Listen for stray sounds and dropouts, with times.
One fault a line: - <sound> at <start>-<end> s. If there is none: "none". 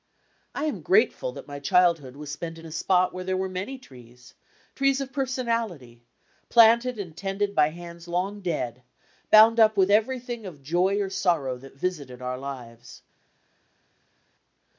none